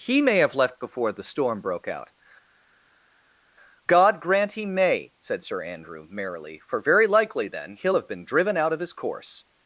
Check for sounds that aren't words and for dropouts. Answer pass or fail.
pass